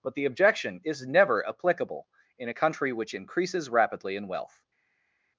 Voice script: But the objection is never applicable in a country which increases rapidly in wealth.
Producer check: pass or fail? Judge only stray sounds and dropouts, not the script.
pass